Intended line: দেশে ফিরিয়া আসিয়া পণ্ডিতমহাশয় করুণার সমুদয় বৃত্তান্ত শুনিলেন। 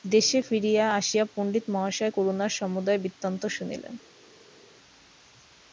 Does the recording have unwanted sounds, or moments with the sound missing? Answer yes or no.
no